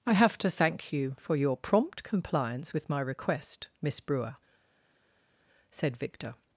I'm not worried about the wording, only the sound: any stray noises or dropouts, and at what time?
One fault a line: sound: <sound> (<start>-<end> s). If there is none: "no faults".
no faults